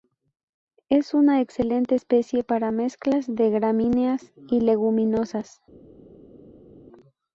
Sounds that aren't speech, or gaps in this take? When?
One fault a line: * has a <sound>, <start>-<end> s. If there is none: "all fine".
all fine